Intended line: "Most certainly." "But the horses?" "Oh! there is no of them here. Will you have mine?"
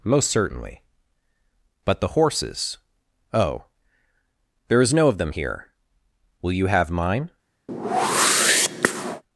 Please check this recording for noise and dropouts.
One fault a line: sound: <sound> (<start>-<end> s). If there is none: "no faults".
sound: whoosh (7.7-9.2 s)